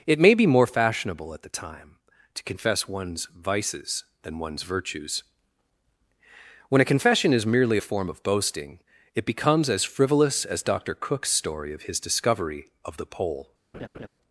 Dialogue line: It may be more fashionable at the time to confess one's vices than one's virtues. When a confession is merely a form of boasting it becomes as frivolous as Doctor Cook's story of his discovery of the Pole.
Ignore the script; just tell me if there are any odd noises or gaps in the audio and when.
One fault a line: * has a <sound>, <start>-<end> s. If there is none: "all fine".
* has a laugh, 13.7-14.1 s